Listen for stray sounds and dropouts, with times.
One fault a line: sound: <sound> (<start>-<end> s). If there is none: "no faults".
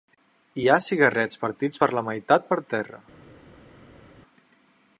no faults